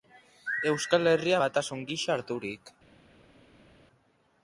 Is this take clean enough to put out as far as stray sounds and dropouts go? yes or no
yes